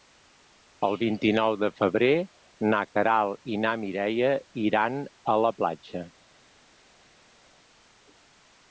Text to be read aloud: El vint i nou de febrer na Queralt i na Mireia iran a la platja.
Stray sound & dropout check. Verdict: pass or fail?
pass